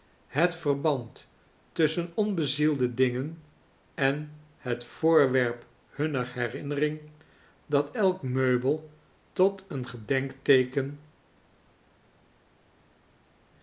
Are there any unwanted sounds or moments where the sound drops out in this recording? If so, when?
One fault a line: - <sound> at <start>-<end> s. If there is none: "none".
none